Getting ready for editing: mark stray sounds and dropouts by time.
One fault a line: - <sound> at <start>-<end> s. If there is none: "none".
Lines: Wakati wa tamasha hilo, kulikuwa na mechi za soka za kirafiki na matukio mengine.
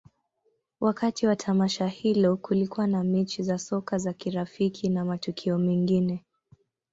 none